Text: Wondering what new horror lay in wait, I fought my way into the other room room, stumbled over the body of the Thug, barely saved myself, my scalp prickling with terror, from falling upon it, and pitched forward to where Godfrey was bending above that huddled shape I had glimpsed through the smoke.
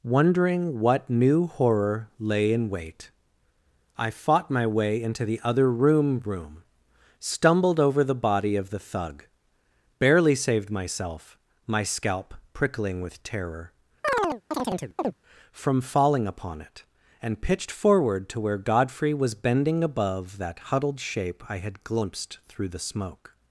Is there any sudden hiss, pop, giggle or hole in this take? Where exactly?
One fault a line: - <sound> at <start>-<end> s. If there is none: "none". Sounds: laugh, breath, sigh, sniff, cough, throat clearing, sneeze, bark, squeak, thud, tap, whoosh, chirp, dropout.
- chirp at 14.0-15.2 s